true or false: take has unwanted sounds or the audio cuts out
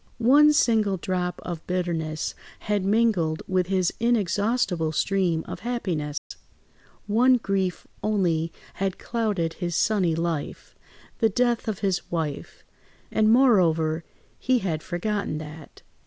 true